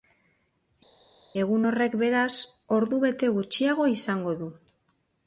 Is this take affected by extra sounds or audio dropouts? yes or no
no